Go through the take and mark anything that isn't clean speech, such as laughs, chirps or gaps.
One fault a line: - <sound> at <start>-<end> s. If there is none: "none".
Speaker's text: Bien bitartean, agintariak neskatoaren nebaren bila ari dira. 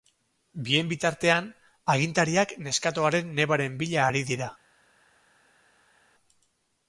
none